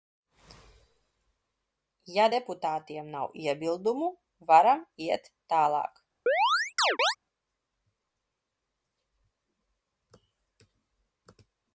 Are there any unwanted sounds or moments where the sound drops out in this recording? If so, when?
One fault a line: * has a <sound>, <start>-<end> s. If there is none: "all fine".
* has a chirp, 6.3-7.2 s